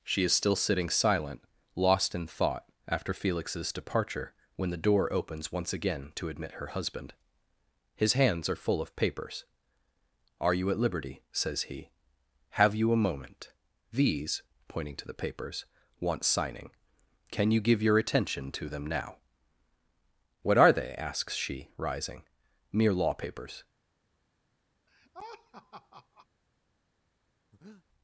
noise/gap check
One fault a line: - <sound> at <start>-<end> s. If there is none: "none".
- laugh at 24.9-26.3 s
- breath at 27.5-27.8 s